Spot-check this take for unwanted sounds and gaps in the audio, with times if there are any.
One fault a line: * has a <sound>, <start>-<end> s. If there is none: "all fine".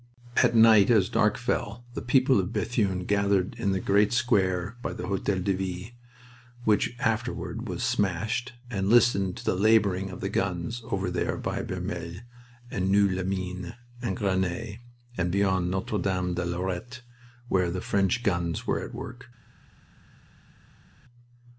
all fine